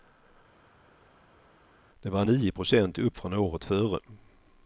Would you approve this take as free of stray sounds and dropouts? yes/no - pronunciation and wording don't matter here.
yes